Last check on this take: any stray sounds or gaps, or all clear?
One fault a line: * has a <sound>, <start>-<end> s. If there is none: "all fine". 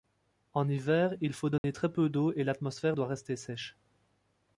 * has a dropout, 1.6-1.6 s